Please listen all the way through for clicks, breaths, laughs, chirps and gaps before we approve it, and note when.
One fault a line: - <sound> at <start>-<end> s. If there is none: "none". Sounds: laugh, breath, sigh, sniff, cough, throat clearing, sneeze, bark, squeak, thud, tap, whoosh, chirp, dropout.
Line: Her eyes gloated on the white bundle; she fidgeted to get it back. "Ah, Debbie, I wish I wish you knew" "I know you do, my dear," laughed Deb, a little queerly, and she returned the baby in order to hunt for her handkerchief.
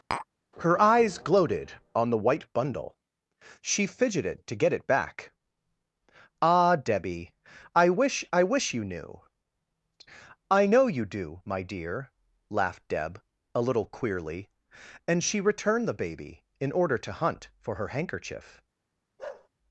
- tap at 0.1-0.3 s
- bark at 19.2-19.5 s